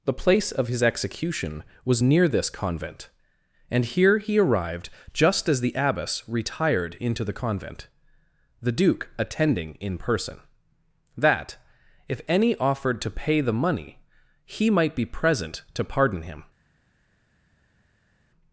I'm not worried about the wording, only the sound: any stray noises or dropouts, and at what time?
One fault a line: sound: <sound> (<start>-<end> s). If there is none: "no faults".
no faults